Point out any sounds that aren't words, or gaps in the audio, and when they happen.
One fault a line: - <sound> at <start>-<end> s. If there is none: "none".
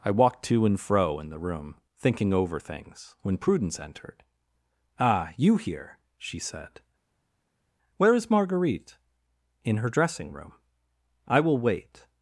none